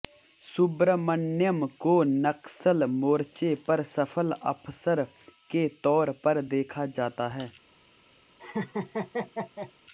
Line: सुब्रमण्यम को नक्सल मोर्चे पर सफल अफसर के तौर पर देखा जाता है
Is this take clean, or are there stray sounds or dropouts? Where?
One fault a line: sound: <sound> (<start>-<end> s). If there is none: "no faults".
sound: laugh (8.4-9.7 s)